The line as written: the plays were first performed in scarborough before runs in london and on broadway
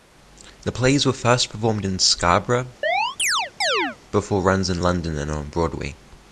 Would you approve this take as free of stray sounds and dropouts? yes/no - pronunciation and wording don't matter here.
no